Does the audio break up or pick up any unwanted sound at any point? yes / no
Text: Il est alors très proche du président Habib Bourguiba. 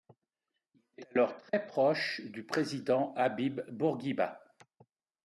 no